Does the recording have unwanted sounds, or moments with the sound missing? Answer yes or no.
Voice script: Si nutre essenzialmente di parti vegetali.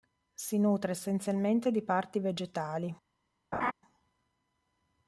yes